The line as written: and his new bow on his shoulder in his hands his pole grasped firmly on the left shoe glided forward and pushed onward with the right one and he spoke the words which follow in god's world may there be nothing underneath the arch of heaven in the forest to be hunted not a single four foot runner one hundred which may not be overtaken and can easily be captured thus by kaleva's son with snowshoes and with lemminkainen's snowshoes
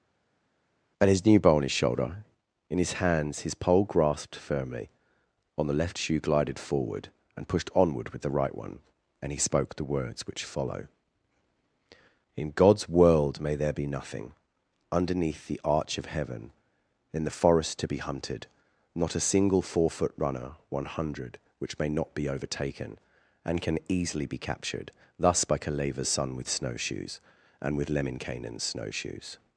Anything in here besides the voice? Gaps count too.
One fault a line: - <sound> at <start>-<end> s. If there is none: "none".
none